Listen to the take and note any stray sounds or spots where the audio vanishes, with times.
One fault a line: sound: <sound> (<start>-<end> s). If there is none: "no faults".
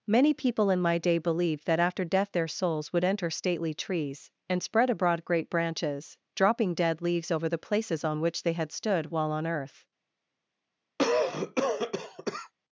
sound: cough (11.0-12.5 s)